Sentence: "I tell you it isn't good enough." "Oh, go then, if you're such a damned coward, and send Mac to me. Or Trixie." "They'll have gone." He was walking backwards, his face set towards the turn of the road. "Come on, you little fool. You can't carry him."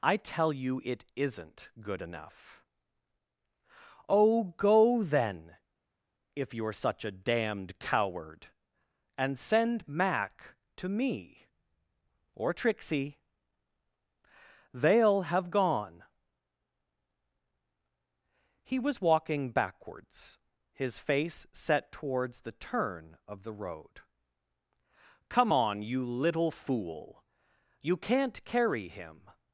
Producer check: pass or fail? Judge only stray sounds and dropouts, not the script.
pass